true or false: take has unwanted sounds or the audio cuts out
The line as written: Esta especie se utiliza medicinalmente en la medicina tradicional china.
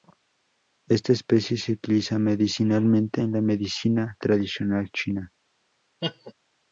true